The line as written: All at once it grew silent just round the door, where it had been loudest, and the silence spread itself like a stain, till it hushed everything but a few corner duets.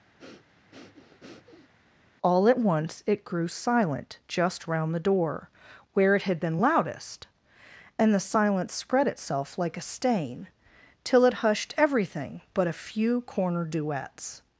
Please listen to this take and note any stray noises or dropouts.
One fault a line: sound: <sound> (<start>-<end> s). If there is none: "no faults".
sound: breath (0.2-1.7 s)